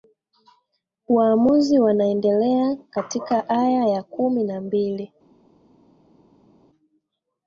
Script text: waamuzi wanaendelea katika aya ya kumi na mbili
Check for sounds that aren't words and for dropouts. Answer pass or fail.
pass